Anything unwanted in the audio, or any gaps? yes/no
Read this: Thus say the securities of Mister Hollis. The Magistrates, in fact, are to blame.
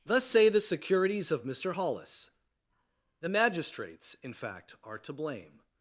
no